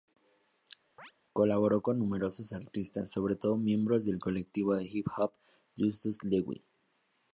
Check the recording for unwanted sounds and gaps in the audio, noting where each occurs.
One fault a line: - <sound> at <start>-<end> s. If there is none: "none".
- chirp at 1.0-1.1 s